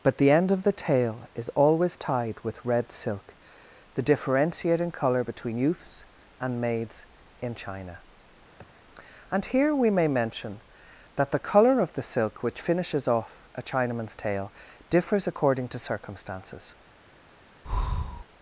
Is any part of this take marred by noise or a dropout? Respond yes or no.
yes